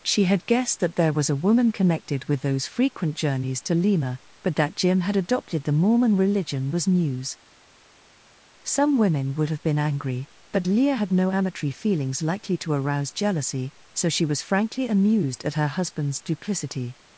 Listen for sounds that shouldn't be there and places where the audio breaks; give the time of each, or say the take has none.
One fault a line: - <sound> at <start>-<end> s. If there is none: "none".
none